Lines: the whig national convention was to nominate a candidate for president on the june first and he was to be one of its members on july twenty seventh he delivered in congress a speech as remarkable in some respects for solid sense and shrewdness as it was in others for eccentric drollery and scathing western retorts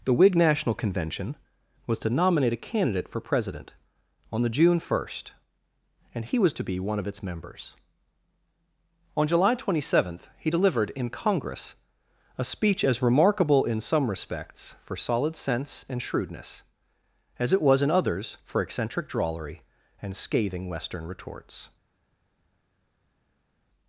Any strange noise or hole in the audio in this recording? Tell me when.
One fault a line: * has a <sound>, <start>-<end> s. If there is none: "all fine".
all fine